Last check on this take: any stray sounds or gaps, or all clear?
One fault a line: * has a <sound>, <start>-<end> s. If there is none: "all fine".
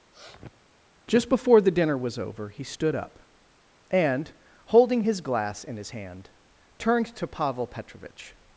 * has a sniff, 0.1-0.7 s